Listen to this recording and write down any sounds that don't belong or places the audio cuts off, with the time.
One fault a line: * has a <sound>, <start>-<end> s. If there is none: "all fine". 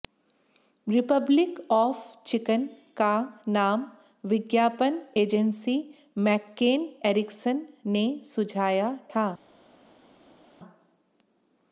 all fine